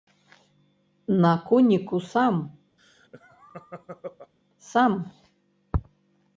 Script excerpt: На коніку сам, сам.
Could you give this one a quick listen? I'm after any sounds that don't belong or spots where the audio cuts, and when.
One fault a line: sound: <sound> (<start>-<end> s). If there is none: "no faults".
sound: laugh (2.8-4.3 s)